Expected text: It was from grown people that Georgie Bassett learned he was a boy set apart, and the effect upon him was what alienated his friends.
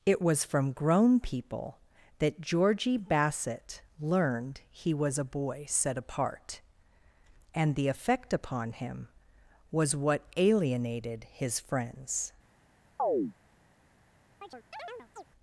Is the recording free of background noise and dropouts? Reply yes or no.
no